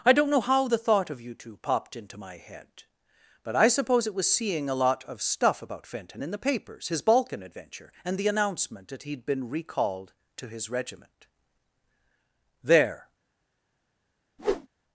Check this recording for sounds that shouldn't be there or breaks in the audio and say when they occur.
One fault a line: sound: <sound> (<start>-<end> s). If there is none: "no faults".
sound: whoosh (14.4-14.7 s)